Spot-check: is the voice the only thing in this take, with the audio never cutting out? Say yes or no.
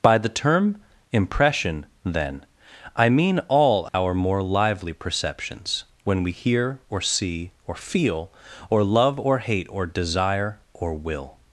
no